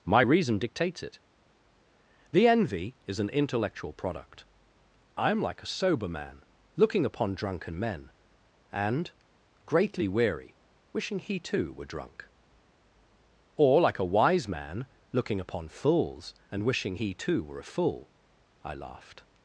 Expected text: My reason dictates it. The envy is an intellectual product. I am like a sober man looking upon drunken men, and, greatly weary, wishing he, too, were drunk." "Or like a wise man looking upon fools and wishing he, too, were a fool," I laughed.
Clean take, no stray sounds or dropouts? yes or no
yes